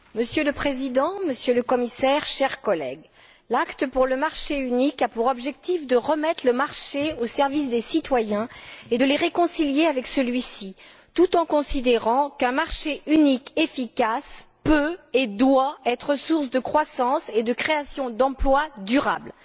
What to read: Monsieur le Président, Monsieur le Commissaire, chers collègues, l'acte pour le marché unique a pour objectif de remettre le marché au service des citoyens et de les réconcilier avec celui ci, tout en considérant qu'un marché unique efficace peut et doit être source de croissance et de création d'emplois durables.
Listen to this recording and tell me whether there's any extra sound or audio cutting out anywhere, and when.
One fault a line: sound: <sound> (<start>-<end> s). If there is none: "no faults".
no faults